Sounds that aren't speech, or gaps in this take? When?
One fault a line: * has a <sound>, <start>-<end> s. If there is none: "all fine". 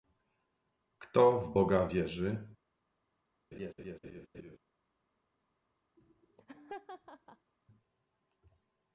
* has a laugh, 3.5-4.6 s
* has a laugh, 6.0-7.5 s